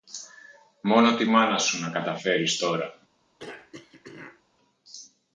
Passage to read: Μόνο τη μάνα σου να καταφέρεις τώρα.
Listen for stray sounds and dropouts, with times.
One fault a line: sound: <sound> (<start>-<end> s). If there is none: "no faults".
sound: throat clearing (3.4-4.4 s)